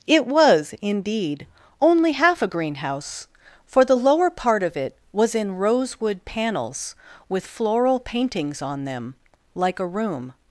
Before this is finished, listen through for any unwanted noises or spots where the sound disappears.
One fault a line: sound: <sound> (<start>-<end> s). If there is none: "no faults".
no faults